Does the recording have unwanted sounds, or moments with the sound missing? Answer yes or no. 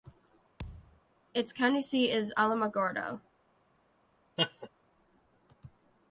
yes